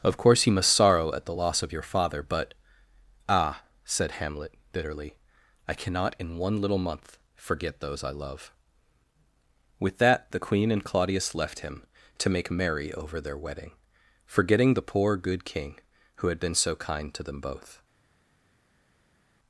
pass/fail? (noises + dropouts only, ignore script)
pass